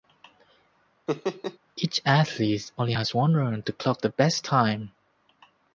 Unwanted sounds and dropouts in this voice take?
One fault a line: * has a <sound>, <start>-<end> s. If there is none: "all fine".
* has a laugh, 1.1-1.6 s